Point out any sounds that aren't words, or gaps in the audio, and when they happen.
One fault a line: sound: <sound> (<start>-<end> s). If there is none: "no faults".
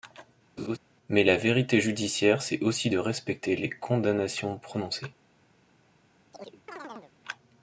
sound: laugh (0.6-0.8 s)
sound: chirp (6.3-7.1 s)